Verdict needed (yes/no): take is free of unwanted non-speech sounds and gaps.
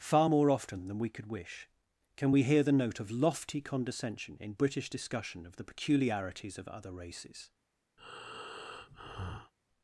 no